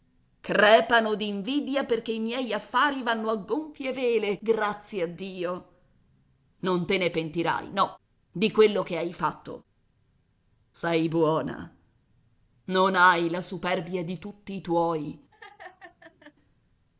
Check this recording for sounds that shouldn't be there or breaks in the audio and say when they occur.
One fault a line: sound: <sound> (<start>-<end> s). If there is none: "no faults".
sound: laugh (15.3-16.3 s)